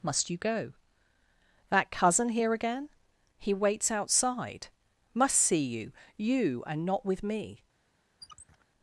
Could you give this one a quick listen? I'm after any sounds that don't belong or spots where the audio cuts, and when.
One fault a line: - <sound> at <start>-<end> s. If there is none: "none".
- squeak at 8.2-8.7 s